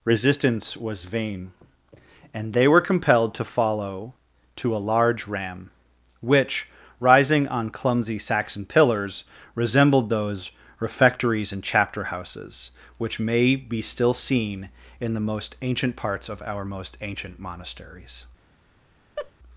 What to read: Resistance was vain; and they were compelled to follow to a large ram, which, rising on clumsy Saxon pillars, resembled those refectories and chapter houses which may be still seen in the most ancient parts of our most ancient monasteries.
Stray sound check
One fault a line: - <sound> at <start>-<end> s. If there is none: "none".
- laugh at 19.2-19.3 s